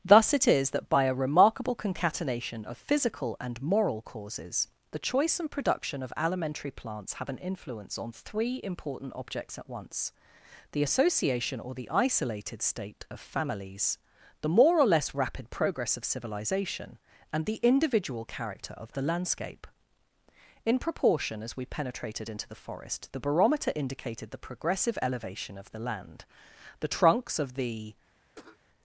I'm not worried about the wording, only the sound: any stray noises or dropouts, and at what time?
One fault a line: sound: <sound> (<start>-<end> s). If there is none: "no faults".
sound: cough (28.3-28.6 s)